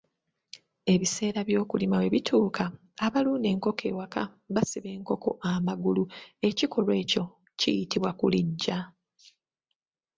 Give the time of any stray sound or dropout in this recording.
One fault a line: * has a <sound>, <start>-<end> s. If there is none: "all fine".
all fine